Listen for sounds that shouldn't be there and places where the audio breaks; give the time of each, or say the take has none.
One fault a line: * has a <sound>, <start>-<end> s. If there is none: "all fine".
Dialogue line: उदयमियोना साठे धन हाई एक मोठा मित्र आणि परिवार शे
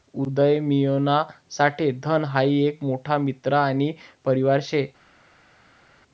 all fine